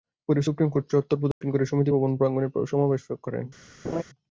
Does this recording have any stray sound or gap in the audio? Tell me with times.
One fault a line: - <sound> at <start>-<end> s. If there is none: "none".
- dropout at 1.3-1.4 s
- laugh at 3.8-4.0 s